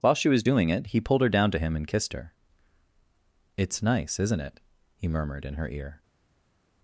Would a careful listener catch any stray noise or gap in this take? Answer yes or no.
no